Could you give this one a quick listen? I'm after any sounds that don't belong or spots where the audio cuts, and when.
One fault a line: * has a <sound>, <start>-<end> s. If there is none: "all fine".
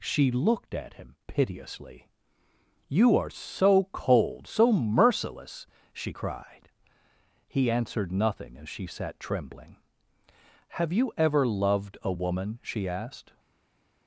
all fine